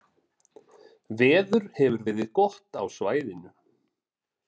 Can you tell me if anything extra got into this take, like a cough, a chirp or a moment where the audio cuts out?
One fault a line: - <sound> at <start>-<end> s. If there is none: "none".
none